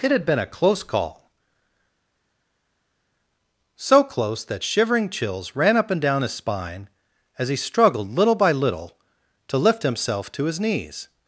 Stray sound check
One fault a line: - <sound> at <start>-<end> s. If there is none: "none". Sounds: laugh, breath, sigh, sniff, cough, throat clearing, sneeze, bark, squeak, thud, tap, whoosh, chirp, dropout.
none